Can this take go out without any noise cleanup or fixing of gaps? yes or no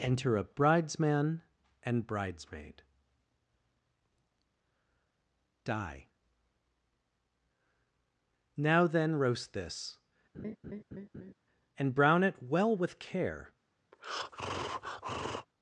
no